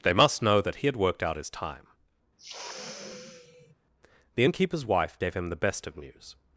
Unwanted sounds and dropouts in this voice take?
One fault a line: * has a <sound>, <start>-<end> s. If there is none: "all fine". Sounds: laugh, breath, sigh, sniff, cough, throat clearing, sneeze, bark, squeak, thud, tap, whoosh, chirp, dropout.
* has a sniff, 2.4-3.7 s